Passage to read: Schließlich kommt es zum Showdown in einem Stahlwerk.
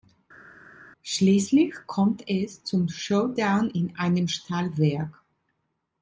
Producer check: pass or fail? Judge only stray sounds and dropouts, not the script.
pass